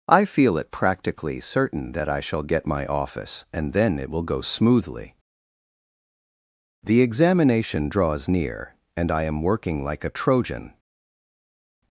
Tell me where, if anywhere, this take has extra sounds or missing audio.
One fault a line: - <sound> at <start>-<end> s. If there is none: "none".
none